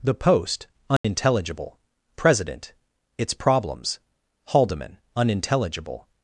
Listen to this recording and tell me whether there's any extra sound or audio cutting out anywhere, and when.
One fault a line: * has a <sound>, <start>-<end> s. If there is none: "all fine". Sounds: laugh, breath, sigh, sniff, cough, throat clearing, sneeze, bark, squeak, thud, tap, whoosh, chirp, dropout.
* has a dropout, 1.0-1.0 s